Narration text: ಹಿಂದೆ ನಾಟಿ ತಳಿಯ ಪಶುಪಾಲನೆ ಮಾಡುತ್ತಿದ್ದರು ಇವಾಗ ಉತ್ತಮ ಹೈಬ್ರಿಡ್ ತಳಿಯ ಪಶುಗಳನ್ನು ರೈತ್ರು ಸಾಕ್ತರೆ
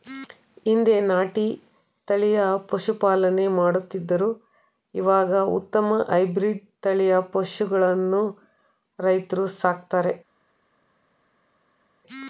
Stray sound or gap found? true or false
false